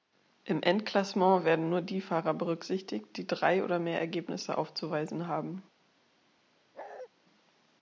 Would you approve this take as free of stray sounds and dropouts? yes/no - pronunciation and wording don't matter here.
no